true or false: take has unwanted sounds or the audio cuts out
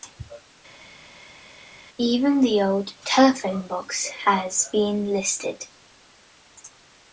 false